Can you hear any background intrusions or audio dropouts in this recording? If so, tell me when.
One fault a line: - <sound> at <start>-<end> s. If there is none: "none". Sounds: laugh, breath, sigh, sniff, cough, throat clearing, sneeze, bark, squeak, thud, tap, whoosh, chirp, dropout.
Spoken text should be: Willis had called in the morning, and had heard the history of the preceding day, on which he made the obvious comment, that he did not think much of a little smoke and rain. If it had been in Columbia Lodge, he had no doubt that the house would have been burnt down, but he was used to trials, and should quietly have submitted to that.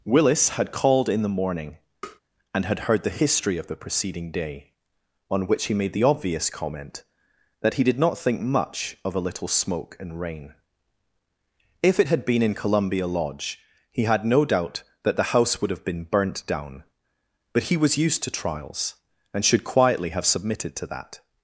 - tap at 2.0-2.2 s